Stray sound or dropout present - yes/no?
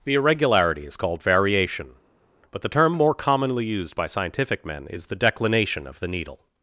no